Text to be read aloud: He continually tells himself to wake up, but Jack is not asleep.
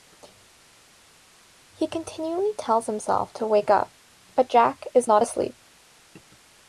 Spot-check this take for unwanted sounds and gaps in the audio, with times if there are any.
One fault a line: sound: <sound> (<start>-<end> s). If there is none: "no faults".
no faults